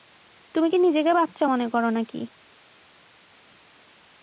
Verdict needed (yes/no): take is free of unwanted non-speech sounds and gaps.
yes